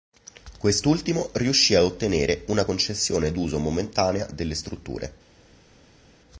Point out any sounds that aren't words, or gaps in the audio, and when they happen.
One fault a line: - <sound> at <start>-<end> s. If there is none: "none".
none